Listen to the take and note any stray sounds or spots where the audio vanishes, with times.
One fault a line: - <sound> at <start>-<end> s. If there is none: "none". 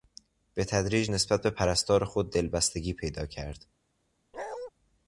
- bark at 4.3-4.7 s